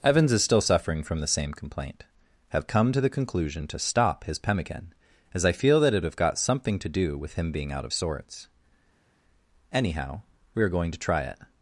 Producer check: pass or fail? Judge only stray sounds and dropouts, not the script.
pass